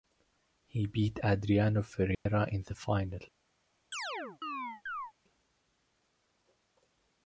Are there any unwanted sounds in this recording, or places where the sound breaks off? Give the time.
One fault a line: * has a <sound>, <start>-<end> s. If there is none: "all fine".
* has a dropout, 2.1-2.3 s
* has a chirp, 3.9-5.1 s